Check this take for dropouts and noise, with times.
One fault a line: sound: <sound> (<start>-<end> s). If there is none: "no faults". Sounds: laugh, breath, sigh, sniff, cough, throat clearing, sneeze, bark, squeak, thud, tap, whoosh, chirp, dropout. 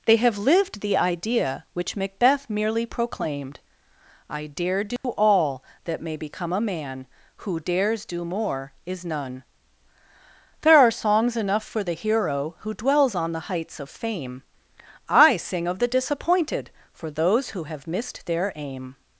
sound: dropout (5.0-5.0 s)